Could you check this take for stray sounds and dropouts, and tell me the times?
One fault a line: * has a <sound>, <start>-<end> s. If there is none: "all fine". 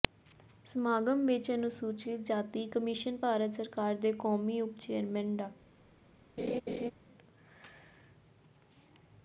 * has a laugh, 6.4-6.9 s